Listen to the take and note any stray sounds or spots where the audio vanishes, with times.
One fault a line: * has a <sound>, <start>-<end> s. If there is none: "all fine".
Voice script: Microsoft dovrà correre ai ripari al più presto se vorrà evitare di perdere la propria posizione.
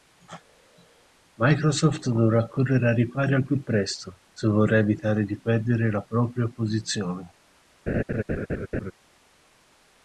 * has a laugh, 7.9-8.9 s